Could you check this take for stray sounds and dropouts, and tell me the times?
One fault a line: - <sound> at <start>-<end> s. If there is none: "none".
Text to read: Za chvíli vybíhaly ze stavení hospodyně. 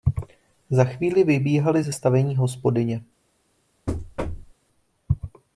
- thud at 3.9-4.5 s